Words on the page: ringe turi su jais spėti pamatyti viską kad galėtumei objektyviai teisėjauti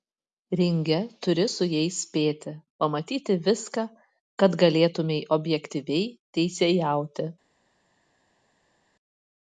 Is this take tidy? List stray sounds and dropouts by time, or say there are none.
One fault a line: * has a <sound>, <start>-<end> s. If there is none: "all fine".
all fine